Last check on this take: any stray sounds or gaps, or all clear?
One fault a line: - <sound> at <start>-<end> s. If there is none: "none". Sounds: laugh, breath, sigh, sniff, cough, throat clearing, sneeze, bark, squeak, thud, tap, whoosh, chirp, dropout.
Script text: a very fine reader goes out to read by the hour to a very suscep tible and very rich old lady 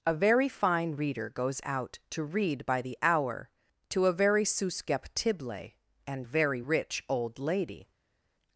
none